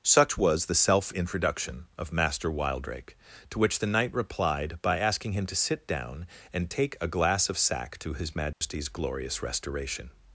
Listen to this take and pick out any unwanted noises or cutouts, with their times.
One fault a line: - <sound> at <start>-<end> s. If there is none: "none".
- dropout at 8.5-8.6 s